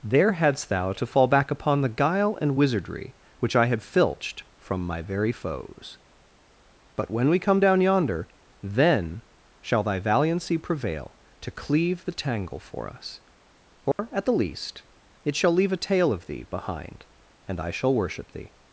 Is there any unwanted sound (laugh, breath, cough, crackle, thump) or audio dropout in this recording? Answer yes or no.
yes